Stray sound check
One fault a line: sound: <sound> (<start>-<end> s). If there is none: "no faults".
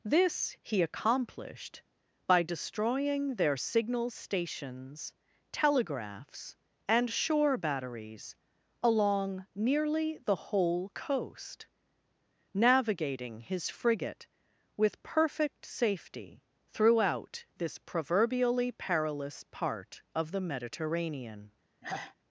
sound: sigh (21.8-22.2 s)